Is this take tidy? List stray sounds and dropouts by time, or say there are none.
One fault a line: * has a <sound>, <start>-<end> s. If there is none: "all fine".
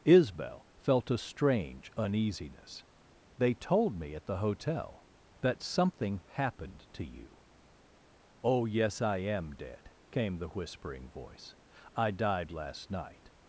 all fine